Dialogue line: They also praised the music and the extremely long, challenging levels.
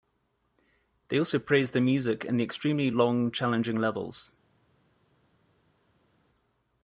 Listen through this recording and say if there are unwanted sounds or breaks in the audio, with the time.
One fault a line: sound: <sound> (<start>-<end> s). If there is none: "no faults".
no faults